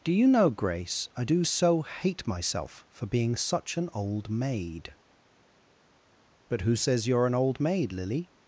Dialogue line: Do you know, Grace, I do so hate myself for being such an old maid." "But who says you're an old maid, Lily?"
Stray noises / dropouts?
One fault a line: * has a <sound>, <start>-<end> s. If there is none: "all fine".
all fine